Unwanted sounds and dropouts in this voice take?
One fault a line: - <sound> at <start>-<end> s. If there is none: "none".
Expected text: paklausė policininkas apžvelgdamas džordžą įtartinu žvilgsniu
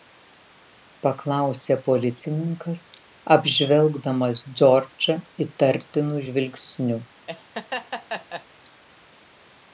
- laugh at 7.3-8.5 s